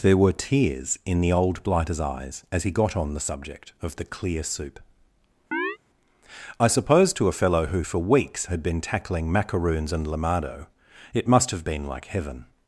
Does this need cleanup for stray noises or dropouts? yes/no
yes